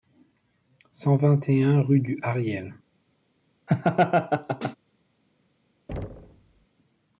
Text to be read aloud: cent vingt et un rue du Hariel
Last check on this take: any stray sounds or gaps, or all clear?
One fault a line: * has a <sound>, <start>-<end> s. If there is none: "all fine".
* has a laugh, 3.7-4.8 s
* has a thud, 5.9-6.7 s